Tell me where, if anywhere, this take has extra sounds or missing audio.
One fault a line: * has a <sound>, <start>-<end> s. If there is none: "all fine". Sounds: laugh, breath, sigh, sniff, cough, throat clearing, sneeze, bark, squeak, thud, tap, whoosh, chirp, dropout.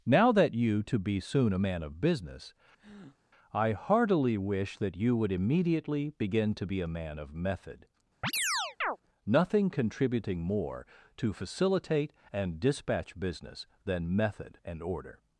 * has a breath, 2.8-3.2 s
* has a chirp, 8.2-9.0 s